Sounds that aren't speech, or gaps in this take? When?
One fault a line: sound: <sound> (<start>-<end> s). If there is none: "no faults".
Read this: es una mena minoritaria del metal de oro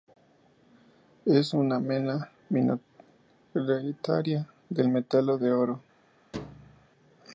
sound: thud (6.3-6.9 s)